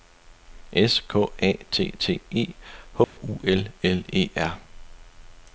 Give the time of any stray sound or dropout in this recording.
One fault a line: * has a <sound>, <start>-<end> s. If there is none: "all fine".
* has a dropout, 3.0-3.2 s